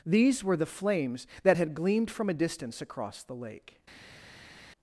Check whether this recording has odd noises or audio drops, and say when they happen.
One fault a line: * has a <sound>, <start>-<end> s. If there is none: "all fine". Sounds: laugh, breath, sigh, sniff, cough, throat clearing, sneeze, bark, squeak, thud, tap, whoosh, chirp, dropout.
all fine